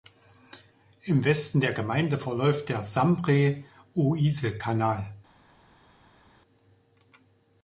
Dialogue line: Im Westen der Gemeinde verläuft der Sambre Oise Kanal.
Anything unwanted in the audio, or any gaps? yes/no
no